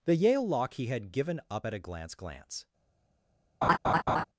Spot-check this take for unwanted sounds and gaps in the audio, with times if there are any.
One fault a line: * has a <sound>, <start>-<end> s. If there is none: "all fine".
* has a laugh, 3.6-4.2 s